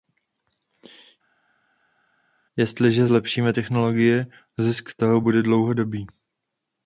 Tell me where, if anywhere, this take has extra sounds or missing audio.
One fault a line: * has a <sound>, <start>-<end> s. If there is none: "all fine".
all fine